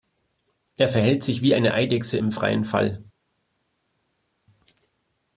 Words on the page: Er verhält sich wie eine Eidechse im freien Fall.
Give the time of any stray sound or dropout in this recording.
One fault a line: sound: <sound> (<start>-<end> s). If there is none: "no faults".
no faults